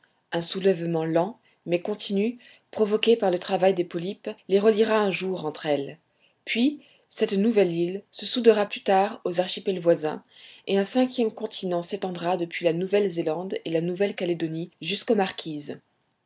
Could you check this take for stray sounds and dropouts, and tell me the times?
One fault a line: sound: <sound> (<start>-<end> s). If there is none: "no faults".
no faults